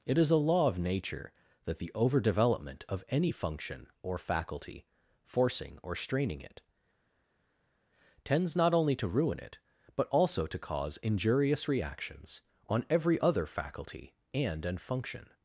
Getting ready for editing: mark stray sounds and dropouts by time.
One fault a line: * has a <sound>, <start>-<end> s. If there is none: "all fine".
all fine